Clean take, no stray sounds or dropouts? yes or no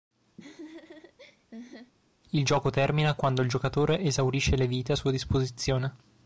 no